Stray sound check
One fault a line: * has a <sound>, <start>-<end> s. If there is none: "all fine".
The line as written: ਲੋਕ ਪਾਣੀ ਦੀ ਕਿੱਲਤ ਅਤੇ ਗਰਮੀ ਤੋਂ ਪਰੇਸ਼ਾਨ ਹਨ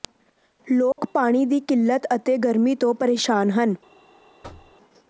* has a dropout, 0.9-1.0 s
* has a thud, 4.4-4.8 s